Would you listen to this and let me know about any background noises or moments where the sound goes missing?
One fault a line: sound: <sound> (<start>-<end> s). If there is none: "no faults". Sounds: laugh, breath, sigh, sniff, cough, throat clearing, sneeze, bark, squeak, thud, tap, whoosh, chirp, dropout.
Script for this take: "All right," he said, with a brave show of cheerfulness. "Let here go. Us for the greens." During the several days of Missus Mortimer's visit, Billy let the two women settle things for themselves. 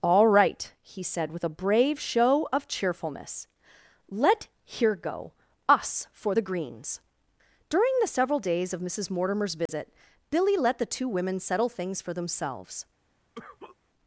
sound: dropout (9.7-9.7 s)
sound: cough (13.4-13.8 s)